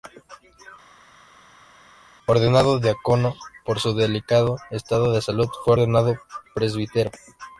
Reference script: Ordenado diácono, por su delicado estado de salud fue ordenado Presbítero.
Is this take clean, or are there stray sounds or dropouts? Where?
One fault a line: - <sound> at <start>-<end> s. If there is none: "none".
none